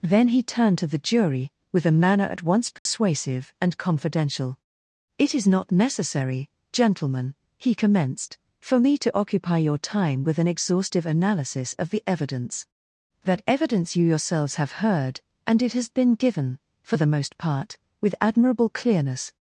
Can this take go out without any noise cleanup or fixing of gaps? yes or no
no